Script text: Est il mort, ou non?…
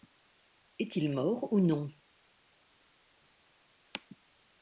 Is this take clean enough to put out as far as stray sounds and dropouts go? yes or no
yes